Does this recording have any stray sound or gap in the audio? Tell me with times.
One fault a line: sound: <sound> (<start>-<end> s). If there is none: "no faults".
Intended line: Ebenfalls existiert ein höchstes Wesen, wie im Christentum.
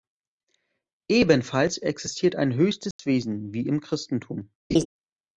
sound: dropout (2.9-3.0 s)
sound: laugh (4.7-4.9 s)